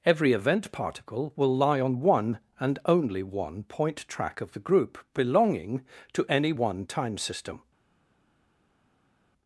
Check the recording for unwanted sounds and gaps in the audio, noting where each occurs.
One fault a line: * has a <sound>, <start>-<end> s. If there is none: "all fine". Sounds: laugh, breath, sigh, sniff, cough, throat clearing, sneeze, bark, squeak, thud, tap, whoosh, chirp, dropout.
all fine